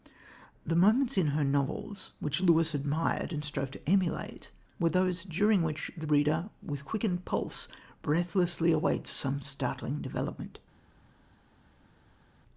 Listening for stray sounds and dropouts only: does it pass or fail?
pass